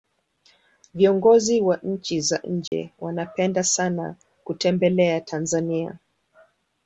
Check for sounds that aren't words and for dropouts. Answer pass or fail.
fail